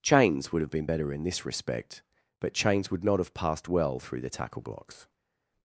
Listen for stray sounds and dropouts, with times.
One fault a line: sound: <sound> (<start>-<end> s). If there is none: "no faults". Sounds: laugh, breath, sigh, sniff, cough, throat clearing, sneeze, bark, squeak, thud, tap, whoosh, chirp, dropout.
no faults